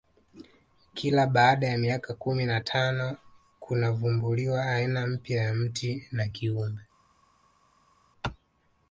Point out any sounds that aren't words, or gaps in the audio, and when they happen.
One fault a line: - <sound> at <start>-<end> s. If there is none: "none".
none